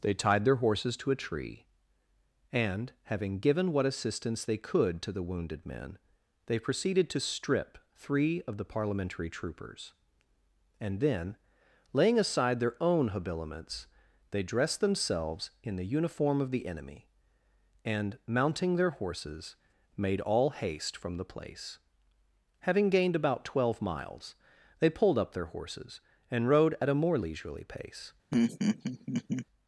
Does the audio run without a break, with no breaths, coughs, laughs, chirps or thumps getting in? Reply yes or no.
no